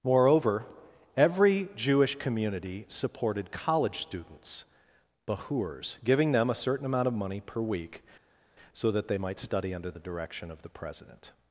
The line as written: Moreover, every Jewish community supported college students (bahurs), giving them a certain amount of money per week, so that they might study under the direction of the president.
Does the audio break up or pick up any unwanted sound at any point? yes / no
no